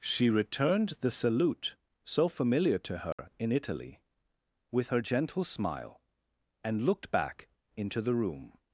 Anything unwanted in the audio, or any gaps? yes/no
yes